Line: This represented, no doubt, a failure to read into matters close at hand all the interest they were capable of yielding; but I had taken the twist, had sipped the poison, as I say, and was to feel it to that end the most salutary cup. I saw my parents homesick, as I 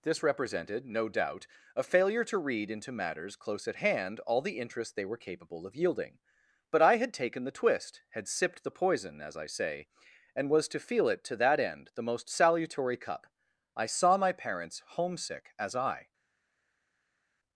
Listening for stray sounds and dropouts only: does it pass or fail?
pass